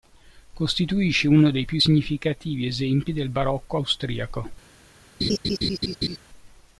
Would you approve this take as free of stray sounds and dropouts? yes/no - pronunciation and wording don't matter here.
no